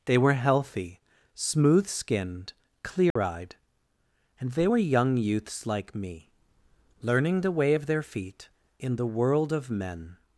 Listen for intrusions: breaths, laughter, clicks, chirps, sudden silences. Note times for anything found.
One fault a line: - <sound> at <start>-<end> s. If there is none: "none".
- dropout at 3.1-3.2 s